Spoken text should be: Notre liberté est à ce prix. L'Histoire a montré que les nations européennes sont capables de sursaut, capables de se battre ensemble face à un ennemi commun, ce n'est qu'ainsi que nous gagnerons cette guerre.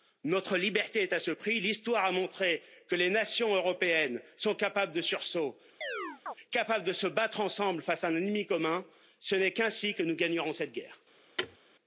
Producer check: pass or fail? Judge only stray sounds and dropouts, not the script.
fail